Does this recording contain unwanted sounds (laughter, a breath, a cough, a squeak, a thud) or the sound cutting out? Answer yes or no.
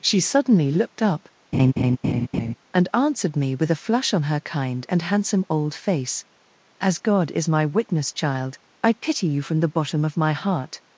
yes